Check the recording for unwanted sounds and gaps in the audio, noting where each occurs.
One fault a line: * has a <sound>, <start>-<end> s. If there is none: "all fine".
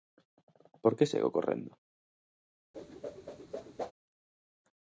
* has a whoosh, 2.7-3.9 s